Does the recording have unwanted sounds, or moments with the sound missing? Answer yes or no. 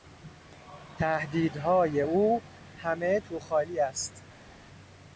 no